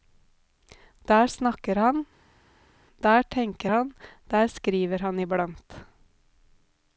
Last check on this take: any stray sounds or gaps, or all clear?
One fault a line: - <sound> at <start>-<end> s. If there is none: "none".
none